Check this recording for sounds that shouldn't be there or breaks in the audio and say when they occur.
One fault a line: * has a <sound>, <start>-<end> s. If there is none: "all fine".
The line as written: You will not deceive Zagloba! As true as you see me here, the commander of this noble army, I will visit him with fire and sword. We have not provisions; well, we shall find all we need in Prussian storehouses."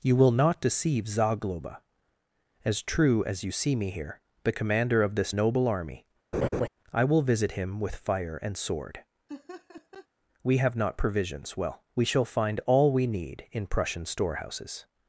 * has a laugh, 6.3-6.7 s
* has a laugh, 9.3-10.1 s